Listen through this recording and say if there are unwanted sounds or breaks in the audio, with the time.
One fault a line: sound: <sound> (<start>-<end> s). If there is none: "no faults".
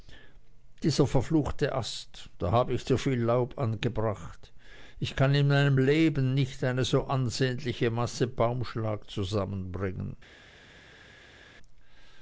no faults